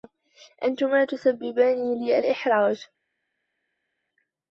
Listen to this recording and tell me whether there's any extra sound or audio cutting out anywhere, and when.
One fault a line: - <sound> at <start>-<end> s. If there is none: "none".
none